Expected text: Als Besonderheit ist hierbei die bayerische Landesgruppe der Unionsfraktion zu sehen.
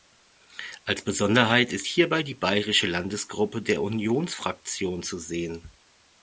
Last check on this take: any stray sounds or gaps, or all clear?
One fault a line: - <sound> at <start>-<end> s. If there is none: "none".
none